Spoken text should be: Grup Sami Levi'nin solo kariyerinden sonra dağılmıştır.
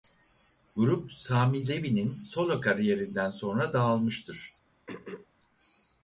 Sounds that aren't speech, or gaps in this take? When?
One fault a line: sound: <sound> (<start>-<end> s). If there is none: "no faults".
sound: throat clearing (4.9-5.3 s)